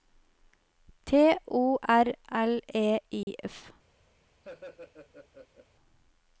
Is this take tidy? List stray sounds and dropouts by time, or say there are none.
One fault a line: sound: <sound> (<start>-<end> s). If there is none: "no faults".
sound: dropout (3.2-3.3 s)
sound: laugh (4.4-5.7 s)